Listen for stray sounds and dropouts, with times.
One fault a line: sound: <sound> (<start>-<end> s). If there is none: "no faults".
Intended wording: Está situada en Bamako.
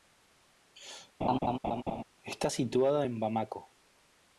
sound: laugh (1.2-2.0 s)